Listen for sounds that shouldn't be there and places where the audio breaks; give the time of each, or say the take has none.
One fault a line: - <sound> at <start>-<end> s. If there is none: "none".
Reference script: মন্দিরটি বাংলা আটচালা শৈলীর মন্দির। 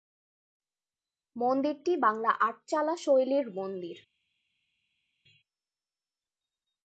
none